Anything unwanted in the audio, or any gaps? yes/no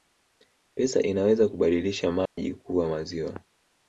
yes